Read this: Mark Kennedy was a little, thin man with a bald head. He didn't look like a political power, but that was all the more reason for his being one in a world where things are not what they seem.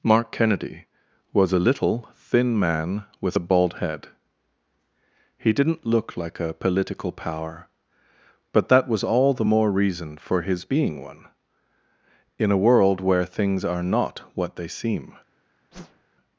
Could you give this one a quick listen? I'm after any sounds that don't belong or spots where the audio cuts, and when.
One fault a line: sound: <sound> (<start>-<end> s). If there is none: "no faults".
sound: whoosh (15.7-16.1 s)